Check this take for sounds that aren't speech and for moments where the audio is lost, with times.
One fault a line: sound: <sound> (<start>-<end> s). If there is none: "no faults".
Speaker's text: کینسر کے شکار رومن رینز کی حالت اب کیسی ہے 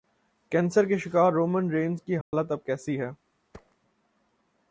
sound: dropout (2.2-2.3 s)
sound: thud (3.5-3.8 s)